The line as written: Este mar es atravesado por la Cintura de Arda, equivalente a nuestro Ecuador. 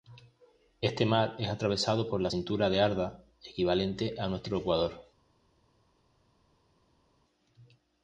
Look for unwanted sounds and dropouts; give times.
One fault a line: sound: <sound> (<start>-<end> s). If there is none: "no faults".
no faults